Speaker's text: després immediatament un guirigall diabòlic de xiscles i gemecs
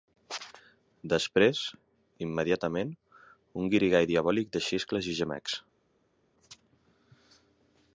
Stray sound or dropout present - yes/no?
no